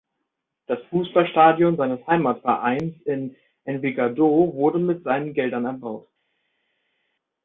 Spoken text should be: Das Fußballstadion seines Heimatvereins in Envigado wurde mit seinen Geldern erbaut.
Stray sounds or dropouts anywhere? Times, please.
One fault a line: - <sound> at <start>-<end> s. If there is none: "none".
none